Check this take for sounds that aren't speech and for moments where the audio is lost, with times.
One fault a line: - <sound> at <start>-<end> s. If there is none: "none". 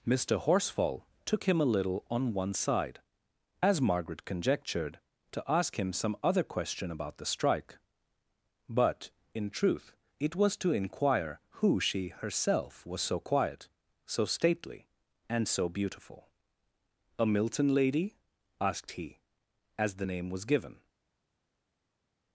none